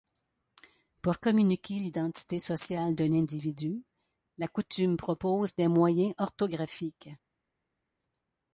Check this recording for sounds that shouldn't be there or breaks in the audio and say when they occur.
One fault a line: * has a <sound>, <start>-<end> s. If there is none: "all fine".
all fine